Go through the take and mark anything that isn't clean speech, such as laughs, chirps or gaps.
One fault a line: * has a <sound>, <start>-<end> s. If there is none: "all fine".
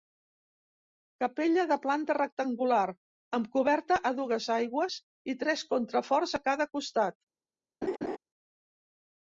* has a laugh, 7.8-8.2 s